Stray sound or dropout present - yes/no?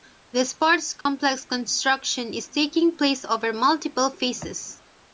yes